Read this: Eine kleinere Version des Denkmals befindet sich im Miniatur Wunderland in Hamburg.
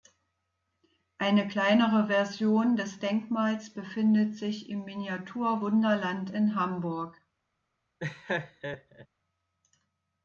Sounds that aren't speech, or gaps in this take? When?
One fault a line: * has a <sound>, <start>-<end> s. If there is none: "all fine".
* has a laugh, 8.0-9.1 s